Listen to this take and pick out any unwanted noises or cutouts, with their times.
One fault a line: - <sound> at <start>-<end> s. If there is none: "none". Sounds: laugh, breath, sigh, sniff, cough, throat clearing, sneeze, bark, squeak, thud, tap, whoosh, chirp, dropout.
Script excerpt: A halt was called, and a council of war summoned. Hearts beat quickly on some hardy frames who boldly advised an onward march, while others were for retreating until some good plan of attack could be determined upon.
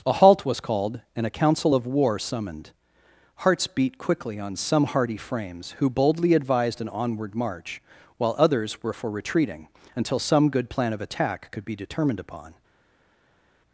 none